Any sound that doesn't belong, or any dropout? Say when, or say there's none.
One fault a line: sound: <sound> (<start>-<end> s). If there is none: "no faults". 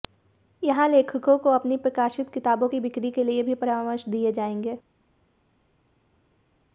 no faults